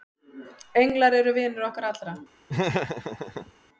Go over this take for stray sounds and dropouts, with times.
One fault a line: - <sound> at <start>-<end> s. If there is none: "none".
- laugh at 2.5-3.5 s